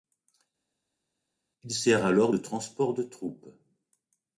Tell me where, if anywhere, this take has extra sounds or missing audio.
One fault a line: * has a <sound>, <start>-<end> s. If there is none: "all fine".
all fine